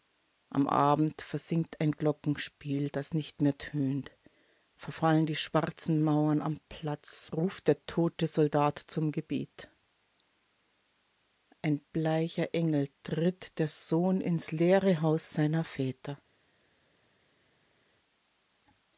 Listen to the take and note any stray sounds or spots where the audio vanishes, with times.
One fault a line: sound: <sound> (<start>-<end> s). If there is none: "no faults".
no faults